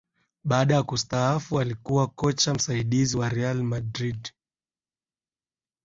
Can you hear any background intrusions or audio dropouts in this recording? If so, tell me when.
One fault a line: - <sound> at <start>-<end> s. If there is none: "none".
none